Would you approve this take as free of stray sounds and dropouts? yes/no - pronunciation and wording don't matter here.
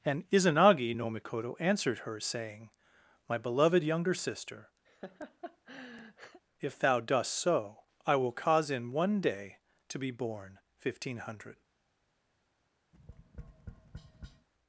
no